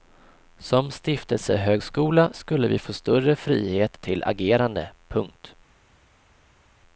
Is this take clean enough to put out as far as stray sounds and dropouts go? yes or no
yes